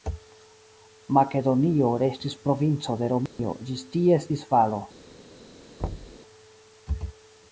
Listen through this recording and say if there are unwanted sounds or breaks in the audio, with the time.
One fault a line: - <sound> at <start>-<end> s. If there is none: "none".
- dropout at 3.3-3.4 s
- thud at 5.8-6.2 s